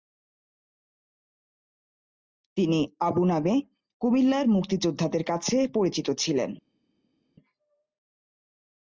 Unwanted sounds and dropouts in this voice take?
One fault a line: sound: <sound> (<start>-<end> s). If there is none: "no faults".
no faults